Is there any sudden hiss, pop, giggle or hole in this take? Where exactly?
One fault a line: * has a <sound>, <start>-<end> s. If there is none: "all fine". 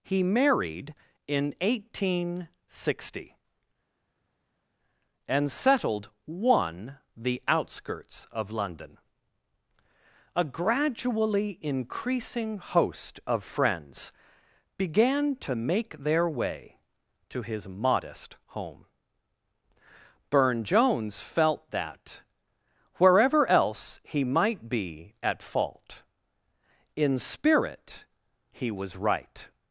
all fine